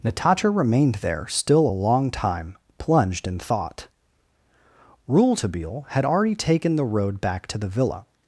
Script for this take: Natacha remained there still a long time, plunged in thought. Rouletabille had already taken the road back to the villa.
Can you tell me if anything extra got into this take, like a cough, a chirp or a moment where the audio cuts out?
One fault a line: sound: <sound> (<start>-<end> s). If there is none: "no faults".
no faults